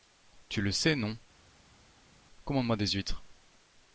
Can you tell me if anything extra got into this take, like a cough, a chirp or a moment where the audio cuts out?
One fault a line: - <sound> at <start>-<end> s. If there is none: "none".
none